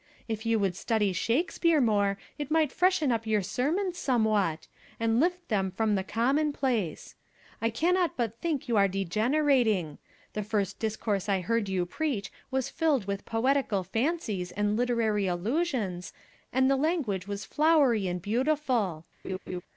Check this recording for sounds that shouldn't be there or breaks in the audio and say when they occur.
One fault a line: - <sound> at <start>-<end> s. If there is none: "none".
- laugh at 19.2-19.6 s